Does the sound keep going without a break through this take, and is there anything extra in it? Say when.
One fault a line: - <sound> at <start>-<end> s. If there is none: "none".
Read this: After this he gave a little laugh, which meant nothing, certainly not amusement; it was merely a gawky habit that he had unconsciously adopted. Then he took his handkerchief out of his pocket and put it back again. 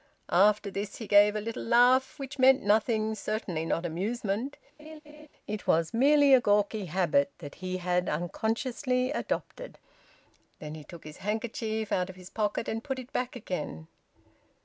- laugh at 4.8-5.3 s